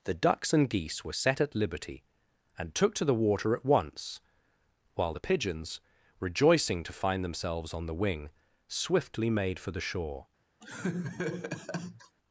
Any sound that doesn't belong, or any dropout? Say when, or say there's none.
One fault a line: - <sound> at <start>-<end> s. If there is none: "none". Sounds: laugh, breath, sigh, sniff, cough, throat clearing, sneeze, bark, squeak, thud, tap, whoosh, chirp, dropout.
- laugh at 10.6-12.2 s